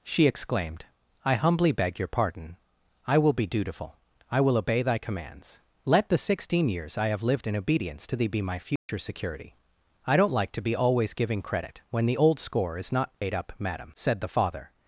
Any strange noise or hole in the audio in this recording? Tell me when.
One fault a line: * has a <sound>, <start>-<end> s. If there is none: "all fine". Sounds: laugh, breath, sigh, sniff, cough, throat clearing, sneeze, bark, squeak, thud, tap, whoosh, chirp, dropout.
* has a dropout, 8.8-8.9 s
* has a dropout, 13.1-13.2 s